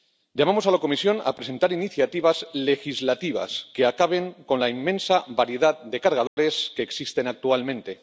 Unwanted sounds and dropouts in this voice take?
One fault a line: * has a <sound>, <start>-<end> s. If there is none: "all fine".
* has a dropout, 6.3-6.4 s